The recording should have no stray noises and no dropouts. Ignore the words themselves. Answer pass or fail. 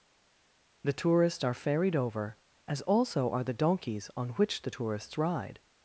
pass